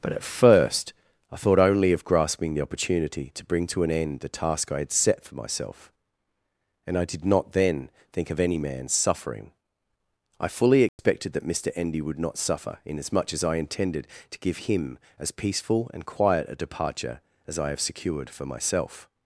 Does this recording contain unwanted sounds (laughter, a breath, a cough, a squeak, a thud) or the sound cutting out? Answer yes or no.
yes